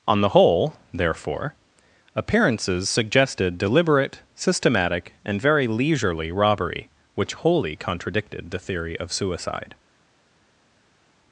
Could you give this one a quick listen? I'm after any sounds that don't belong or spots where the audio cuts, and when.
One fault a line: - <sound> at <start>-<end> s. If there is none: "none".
none